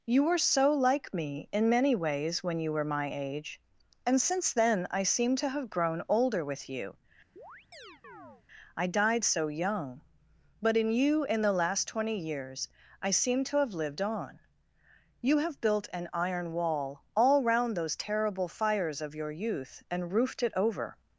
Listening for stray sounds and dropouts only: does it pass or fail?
fail